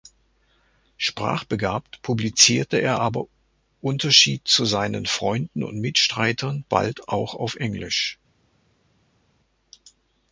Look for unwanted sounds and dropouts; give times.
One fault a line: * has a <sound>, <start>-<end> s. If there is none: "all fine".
all fine